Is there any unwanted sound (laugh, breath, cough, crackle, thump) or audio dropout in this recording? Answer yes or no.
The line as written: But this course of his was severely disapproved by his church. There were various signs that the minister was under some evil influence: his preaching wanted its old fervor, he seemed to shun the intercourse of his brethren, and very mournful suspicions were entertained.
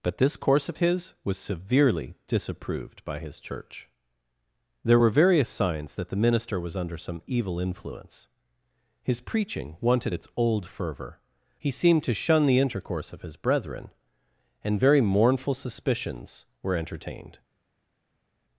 no